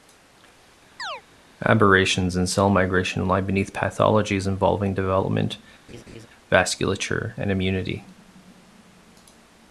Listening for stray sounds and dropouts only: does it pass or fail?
fail